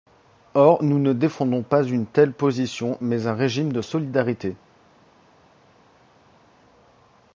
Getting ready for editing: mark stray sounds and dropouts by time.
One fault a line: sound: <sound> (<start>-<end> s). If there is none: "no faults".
no faults